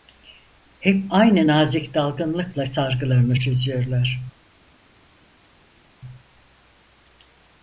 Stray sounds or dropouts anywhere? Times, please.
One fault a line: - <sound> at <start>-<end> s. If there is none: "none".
none